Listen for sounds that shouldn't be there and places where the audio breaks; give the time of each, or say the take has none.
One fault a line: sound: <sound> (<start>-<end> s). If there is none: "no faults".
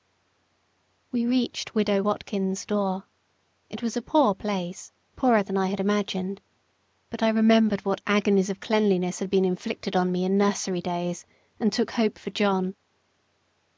no faults